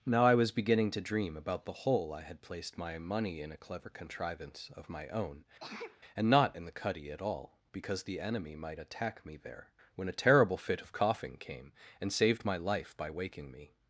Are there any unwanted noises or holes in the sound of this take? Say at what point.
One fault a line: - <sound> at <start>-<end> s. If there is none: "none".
- sneeze at 5.6-6.0 s